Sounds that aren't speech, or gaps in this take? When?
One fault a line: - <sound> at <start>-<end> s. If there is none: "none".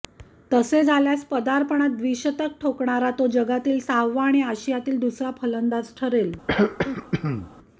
- throat clearing at 6.5-7.5 s